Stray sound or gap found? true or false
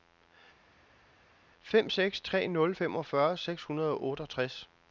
false